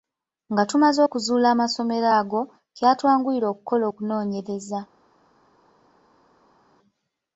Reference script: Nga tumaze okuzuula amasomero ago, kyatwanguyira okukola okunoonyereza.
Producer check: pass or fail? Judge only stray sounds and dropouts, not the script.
pass